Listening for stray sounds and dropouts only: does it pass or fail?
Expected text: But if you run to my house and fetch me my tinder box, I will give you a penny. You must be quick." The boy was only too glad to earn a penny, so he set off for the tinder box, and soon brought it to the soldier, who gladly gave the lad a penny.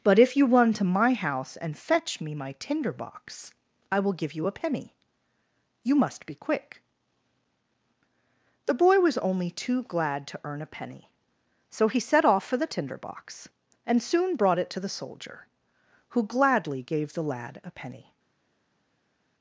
pass